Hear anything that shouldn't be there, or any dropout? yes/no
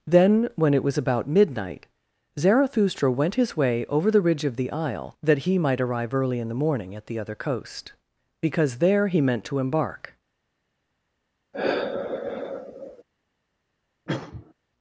yes